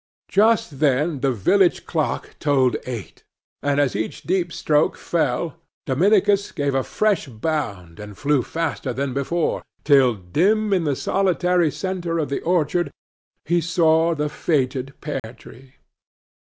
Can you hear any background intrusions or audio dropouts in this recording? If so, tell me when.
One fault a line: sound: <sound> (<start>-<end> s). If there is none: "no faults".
sound: dropout (15.2-15.2 s)